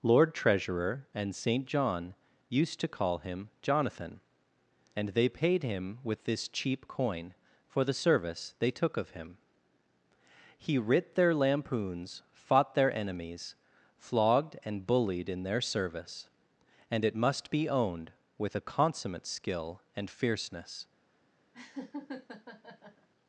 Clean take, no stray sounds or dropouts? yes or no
no